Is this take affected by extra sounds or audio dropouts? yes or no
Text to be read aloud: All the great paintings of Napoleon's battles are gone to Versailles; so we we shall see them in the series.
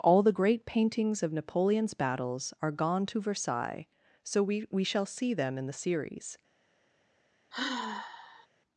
yes